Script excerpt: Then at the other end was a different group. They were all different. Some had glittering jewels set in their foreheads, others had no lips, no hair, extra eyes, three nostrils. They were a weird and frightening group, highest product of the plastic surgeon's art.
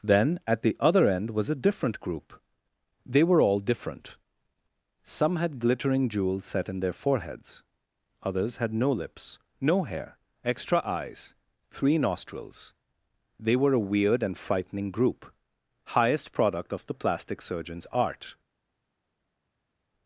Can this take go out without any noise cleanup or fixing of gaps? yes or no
yes